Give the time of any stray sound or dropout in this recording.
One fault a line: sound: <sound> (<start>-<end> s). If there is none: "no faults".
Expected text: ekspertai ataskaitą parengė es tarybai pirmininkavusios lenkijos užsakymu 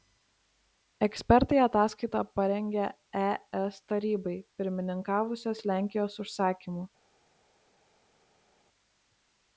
no faults